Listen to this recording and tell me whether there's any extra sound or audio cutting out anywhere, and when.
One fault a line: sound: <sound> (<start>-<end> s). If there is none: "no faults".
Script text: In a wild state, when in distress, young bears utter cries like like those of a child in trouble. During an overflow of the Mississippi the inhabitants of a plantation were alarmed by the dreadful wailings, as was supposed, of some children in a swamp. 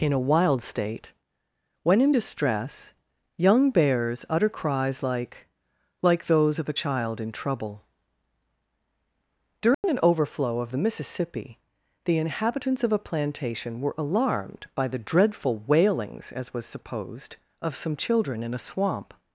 sound: dropout (9.7-9.8 s)